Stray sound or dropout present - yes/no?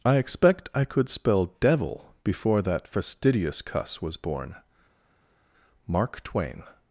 no